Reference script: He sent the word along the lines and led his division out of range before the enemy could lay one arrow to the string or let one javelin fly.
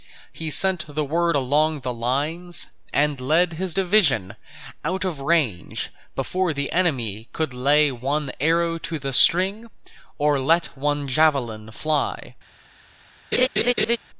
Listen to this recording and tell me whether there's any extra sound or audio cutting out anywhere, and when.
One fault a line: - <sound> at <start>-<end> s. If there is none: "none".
- laugh at 13.3-14.0 s